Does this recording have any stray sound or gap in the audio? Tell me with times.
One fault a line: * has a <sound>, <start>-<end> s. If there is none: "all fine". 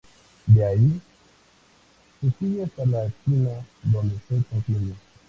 all fine